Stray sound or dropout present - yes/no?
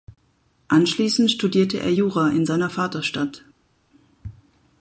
no